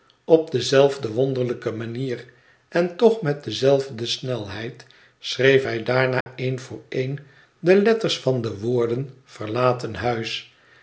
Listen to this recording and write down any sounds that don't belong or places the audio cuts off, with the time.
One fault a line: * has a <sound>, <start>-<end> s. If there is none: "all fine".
* has a dropout, 6.2-6.3 s